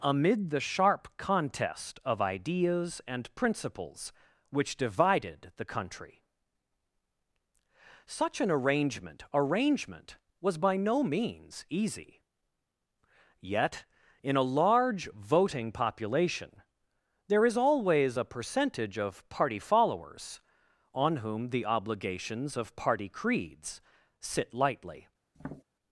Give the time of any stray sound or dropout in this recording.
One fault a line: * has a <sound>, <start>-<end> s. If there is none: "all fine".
* has a tap, 25.3-25.6 s